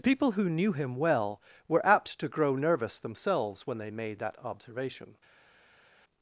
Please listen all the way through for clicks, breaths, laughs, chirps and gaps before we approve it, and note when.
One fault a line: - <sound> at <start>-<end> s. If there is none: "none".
none